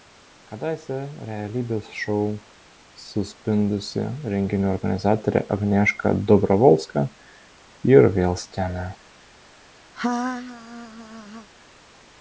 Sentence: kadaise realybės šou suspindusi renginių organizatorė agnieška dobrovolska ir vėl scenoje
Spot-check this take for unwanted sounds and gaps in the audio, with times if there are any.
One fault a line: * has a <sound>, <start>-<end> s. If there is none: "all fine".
* has a laugh, 9.9-11.5 s